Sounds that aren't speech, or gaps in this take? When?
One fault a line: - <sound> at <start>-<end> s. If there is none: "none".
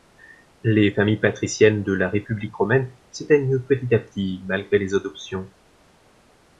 none